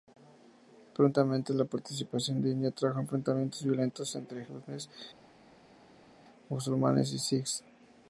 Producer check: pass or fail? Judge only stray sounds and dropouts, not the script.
pass